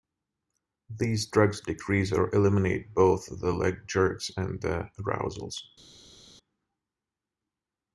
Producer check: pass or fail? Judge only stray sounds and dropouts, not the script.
pass